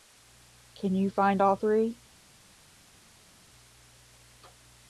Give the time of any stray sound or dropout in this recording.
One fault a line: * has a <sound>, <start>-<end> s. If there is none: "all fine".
all fine